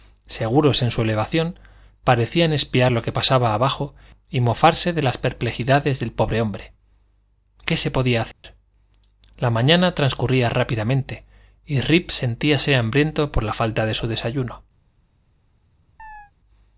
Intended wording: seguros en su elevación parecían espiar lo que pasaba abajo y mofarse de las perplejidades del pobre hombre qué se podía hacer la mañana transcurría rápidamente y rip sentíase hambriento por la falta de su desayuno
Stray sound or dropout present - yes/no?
yes